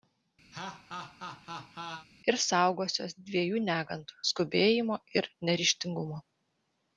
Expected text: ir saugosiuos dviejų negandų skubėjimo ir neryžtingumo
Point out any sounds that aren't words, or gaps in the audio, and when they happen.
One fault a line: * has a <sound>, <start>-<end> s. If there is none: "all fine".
* has a laugh, 0.5-2.1 s